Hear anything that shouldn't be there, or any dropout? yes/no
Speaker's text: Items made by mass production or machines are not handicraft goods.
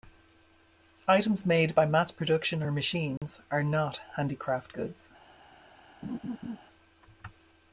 yes